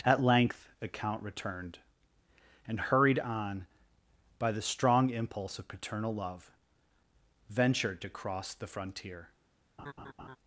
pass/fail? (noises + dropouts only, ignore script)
fail